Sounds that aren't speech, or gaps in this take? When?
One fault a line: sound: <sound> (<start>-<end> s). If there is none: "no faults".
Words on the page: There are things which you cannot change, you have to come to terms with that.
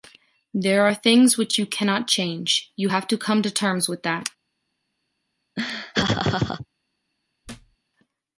sound: laugh (5.6-6.7 s)
sound: thud (7.4-7.8 s)